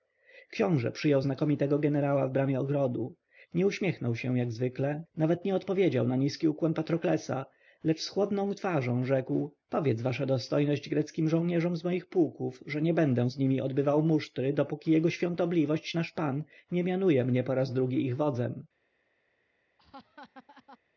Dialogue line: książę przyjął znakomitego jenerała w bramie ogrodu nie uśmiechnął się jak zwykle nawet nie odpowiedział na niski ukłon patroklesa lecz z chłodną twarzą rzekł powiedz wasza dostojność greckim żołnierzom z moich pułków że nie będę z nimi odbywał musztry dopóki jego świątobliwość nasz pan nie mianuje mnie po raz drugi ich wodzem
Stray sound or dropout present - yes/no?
yes